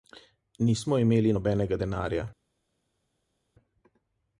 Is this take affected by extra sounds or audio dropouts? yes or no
no